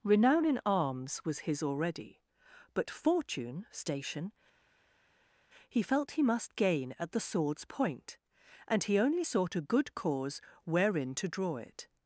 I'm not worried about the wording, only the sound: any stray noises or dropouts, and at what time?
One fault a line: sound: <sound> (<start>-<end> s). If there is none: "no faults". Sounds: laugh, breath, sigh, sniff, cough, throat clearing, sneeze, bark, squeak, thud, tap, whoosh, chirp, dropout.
no faults